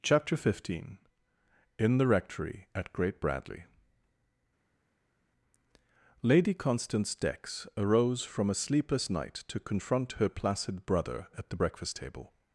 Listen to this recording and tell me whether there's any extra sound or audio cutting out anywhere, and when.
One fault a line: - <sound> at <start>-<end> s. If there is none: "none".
none